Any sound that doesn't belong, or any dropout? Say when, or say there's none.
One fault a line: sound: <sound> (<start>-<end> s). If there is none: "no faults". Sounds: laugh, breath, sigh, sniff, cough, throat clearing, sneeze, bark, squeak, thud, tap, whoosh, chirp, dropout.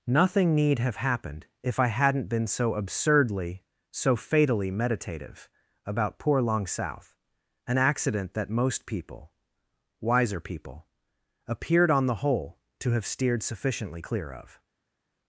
no faults